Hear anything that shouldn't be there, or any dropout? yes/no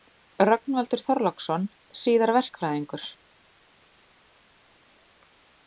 no